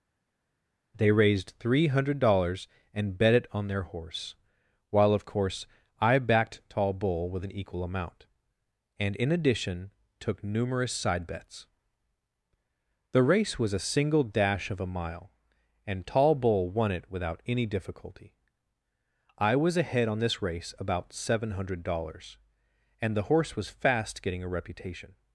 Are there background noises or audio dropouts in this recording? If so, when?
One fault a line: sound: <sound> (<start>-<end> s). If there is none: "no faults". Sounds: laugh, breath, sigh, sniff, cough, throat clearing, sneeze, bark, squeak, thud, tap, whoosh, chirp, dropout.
no faults